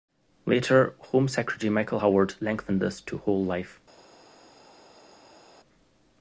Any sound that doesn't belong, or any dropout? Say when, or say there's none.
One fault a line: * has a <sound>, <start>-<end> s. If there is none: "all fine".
all fine